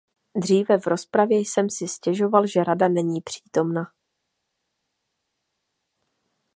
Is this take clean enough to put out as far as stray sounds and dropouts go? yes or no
yes